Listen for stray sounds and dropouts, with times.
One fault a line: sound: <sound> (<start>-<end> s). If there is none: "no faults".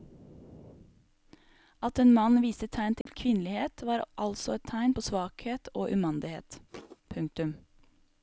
sound: dropout (3.0-3.1 s)
sound: thud (6.7-7.0 s)